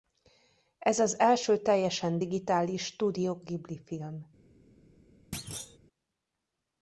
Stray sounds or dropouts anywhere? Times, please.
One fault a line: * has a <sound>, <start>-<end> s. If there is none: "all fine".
* has a thud, 5.3-5.8 s